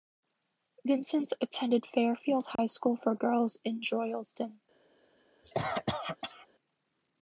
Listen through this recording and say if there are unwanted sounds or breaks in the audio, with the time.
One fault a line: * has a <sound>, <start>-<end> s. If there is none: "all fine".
* has a dropout, 2.6-2.6 s
* has a cough, 5.4-6.5 s